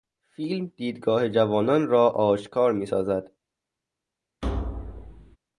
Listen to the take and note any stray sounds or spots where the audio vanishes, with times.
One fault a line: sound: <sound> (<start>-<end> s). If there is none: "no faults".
sound: thud (4.4-5.4 s)